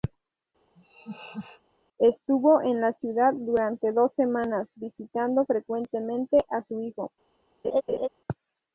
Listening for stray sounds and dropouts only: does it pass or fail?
fail